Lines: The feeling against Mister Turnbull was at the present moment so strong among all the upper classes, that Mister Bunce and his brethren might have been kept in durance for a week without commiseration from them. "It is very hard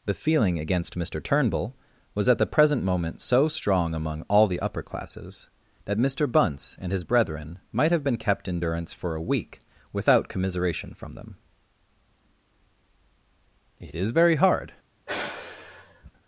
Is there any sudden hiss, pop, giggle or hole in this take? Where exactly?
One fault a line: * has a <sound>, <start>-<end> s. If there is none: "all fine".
* has a sigh, 15.1-16.1 s